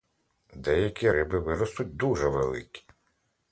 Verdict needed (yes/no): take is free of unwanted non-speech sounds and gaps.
yes